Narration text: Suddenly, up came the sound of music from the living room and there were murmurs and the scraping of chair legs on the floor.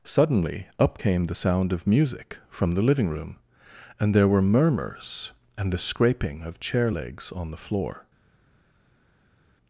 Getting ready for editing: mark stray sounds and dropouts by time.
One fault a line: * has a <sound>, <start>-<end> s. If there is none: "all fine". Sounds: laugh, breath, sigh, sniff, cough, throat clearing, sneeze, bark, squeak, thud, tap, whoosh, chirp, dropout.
all fine